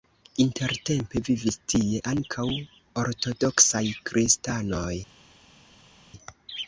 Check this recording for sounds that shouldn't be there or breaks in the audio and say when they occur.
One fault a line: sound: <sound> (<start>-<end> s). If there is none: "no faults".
no faults